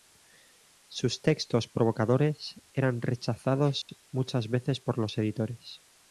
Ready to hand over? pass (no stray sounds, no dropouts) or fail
fail